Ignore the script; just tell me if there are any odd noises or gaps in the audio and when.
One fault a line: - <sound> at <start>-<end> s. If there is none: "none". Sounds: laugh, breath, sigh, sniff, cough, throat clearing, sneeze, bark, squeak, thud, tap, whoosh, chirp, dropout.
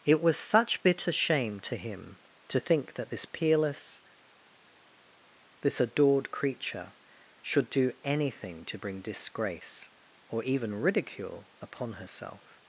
none